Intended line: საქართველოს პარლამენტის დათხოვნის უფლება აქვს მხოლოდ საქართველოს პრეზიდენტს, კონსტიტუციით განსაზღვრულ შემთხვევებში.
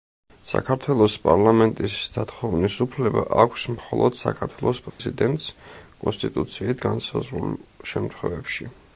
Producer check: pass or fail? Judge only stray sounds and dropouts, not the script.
fail